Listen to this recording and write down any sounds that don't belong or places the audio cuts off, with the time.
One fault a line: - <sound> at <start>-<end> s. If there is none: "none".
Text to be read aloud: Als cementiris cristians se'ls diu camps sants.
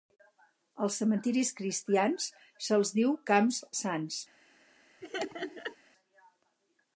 - laugh at 5.0-5.8 s